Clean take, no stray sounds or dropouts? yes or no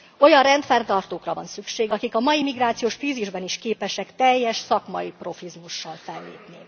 yes